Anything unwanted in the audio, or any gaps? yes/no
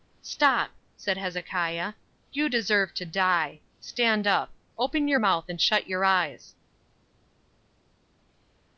no